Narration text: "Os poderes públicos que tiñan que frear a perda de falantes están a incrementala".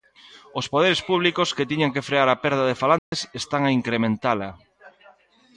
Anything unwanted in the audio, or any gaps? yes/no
yes